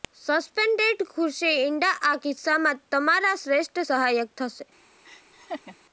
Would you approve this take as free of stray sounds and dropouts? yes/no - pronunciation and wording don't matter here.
no